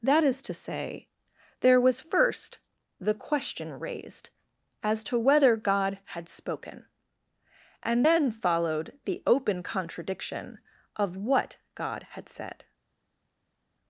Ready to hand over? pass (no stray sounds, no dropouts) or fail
pass